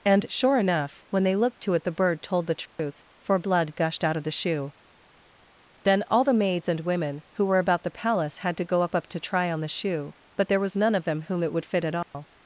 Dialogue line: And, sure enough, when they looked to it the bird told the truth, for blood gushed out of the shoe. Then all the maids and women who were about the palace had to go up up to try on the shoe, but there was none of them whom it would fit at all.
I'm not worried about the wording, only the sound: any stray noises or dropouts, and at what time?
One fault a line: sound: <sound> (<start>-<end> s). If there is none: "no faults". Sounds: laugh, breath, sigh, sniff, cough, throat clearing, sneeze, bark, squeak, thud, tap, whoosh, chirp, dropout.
sound: dropout (2.7-2.8 s)
sound: dropout (12.0-12.1 s)